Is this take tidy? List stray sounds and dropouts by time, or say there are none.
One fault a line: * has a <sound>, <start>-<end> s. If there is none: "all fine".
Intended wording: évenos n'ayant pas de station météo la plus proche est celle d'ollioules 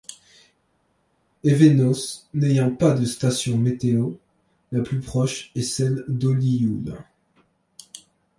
all fine